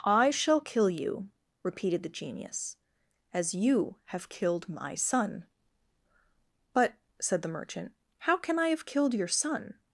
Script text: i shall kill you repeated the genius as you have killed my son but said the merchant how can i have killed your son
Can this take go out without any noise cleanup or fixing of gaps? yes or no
yes